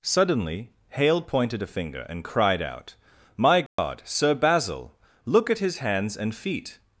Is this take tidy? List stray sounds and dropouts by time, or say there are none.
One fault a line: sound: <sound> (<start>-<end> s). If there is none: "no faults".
sound: dropout (3.7-3.8 s)